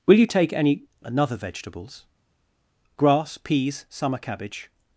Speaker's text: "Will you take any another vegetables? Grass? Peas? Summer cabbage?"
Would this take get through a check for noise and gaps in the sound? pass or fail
pass